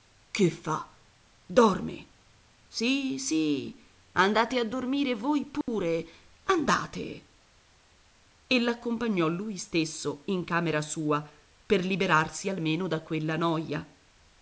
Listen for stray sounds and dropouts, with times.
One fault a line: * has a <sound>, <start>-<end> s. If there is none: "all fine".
* has a dropout, 5.6-5.7 s